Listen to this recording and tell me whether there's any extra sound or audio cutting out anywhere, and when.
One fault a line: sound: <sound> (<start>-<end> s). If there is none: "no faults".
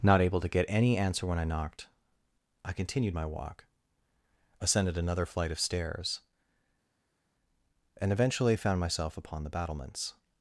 no faults